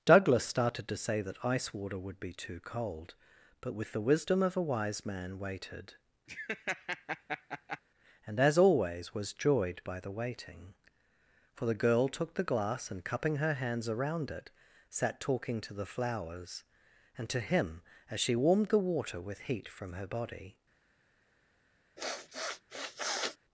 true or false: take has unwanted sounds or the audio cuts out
true